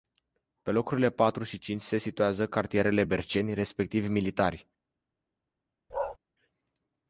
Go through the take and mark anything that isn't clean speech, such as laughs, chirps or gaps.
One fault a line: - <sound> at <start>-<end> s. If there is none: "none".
- bark at 5.9-6.2 s